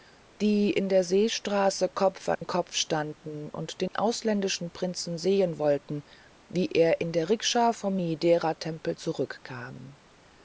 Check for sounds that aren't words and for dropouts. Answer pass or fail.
fail